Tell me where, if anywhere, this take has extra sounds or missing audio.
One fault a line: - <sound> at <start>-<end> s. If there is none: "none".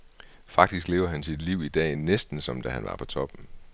none